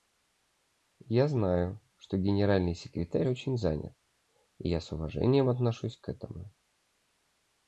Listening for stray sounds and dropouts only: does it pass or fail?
pass